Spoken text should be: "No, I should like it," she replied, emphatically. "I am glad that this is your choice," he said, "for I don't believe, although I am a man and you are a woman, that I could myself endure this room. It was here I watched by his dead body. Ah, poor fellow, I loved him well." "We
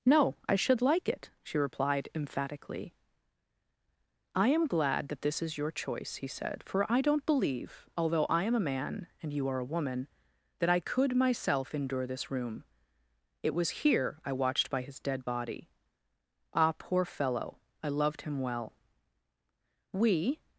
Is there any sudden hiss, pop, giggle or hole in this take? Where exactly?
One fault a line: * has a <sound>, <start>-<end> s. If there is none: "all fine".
all fine